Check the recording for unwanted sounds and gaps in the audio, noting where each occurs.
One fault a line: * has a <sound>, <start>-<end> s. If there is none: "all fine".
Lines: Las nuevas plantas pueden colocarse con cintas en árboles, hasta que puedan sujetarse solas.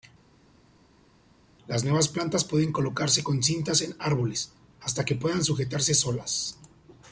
all fine